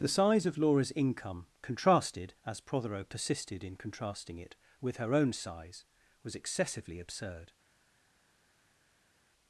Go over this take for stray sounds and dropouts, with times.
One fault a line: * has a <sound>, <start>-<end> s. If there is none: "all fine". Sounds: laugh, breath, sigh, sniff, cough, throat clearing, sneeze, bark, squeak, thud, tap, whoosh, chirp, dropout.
all fine